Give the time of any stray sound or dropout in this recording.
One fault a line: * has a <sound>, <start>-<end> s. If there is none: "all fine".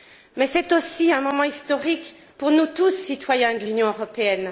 all fine